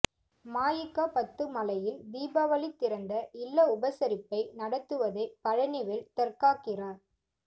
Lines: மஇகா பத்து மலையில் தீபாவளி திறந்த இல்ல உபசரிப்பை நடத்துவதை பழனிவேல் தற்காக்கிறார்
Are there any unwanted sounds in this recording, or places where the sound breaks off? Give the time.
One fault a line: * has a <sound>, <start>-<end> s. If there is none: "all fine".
all fine